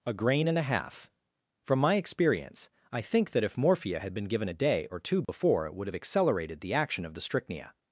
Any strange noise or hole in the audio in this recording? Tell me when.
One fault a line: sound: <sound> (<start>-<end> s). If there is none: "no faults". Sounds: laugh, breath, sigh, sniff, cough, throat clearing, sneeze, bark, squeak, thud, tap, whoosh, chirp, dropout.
sound: dropout (5.2-5.3 s)